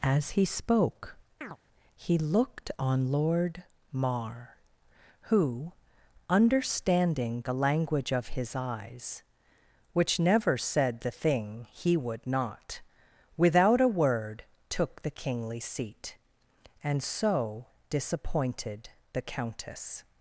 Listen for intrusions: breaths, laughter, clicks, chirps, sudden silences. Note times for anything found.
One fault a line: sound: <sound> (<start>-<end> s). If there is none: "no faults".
sound: chirp (1.4-1.6 s)